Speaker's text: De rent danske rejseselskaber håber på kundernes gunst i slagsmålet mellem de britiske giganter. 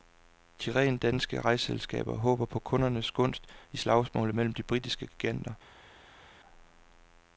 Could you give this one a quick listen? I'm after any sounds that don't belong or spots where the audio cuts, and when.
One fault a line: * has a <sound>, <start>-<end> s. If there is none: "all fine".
all fine